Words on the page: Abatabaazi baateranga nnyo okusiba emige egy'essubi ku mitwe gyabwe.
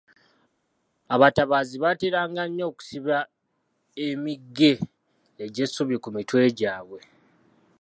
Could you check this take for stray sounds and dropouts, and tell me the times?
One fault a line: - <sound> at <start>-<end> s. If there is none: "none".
none